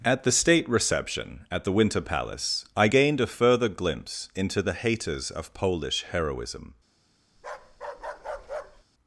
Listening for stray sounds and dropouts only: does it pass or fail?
fail